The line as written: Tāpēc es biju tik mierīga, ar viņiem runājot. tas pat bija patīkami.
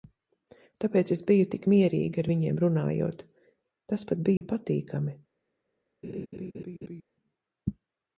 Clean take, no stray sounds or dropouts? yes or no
no